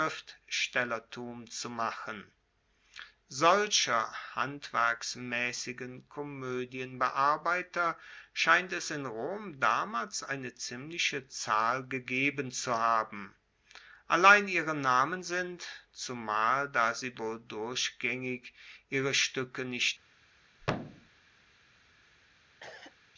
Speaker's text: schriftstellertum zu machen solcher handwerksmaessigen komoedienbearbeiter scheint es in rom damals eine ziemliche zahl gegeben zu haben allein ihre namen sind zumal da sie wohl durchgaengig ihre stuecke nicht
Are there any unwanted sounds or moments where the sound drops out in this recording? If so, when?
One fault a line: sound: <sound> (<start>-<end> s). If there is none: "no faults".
sound: thud (20.6-21.1 s)
sound: cough (22.6-23.0 s)